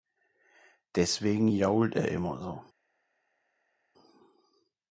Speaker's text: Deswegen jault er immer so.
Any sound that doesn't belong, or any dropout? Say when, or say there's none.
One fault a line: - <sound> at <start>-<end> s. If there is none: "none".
none